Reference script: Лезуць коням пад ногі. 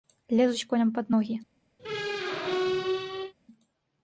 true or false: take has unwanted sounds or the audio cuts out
true